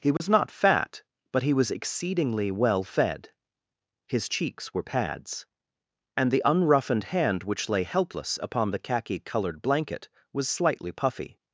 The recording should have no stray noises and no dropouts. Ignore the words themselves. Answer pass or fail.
fail